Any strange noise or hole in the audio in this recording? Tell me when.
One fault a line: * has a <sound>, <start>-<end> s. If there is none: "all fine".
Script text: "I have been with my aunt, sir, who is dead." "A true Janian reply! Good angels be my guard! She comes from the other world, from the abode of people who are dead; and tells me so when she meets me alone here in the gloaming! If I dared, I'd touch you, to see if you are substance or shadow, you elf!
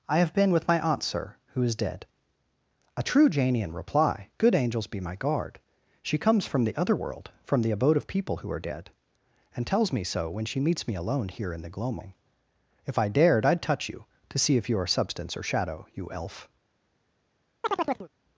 * has a chirp, 17.6-18.1 s